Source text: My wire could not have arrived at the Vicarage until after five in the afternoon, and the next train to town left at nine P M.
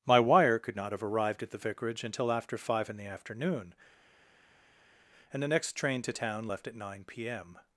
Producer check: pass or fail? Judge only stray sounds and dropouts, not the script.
pass